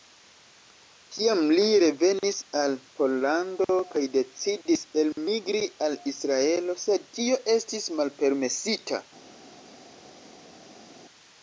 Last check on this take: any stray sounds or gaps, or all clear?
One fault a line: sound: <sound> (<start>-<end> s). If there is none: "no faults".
no faults